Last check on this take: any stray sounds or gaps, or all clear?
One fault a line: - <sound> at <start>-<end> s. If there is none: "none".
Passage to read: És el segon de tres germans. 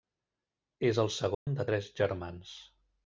- dropout at 1.3-1.5 s